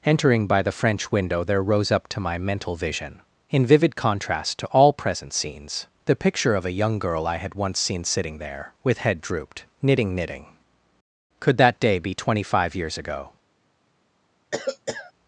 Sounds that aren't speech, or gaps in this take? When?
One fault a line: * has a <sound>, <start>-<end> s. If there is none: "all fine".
* has a cough, 14.5-15.1 s